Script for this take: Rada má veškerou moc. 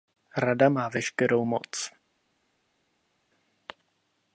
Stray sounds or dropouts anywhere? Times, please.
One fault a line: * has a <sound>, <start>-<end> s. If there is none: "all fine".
all fine